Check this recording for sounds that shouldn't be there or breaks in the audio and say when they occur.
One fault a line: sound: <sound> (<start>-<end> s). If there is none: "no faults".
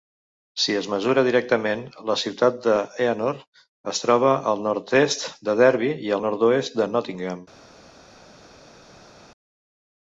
no faults